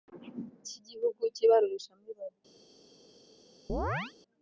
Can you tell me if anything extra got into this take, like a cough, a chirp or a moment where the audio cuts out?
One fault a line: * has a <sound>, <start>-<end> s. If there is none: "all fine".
* has a chirp, 3.7-4.1 s